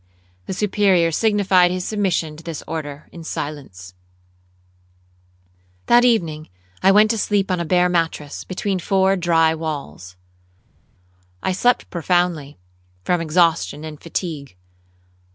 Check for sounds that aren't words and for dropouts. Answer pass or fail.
pass